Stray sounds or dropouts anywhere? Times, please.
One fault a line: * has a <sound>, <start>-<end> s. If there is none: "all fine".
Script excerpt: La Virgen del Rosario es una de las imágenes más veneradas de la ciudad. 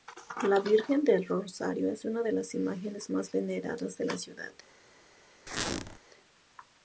* has a squeak, 5.5-6.0 s